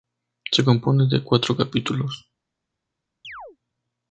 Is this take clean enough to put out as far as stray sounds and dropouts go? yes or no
no